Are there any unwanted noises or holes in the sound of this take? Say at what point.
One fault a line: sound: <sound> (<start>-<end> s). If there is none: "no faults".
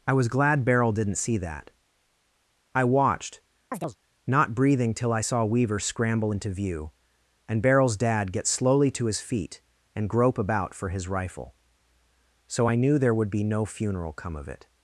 sound: chirp (3.7-4.0 s)